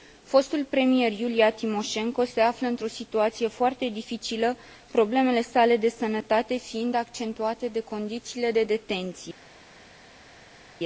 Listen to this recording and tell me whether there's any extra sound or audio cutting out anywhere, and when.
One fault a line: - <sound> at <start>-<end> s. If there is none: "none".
none